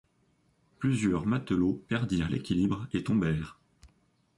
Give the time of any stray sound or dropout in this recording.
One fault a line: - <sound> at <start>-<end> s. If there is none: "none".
none